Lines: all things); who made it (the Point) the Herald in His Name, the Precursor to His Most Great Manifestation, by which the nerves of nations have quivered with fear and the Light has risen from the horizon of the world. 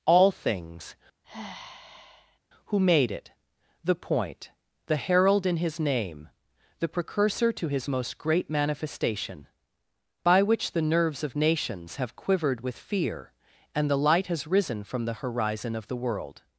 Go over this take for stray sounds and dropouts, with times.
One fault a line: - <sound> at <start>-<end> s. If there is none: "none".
- sigh at 1.2-2.4 s